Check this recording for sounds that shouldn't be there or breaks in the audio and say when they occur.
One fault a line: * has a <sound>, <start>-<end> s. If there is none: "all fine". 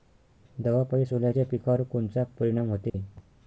* has a dropout, 2.9-2.9 s